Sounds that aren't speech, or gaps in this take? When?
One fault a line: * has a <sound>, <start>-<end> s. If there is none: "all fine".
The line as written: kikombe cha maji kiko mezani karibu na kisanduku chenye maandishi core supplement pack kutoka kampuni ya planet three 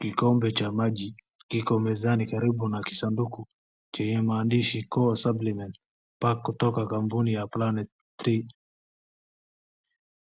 all fine